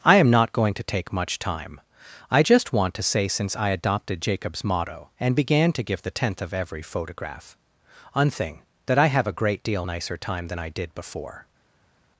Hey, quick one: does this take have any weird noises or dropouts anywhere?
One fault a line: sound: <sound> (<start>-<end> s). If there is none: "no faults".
no faults